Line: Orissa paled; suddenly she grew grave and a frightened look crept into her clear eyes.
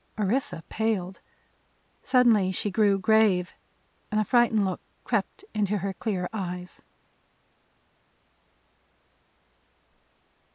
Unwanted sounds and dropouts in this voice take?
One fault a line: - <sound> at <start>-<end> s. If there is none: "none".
none